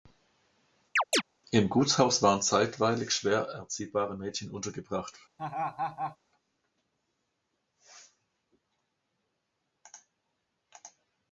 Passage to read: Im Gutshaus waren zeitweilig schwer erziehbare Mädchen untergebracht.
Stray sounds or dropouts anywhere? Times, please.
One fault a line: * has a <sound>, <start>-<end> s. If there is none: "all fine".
* has a chirp, 1.0-1.2 s
* has a laugh, 5.4-6.2 s